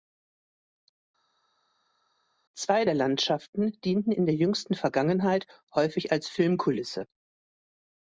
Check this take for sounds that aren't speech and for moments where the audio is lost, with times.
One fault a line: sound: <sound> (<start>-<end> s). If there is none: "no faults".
no faults